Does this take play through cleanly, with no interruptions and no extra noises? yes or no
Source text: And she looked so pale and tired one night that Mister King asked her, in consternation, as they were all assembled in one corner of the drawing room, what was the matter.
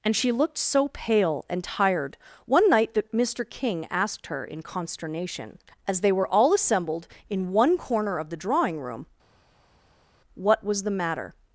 yes